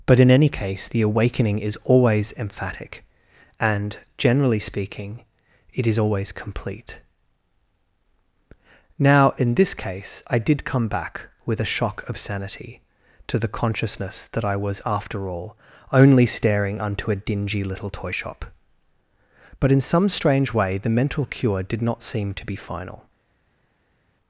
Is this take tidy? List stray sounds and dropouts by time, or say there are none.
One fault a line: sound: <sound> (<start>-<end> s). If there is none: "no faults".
no faults